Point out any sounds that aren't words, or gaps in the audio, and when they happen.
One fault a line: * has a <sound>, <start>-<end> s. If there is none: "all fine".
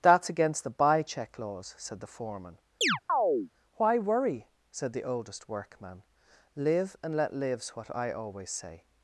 * has a chirp, 2.8-3.5 s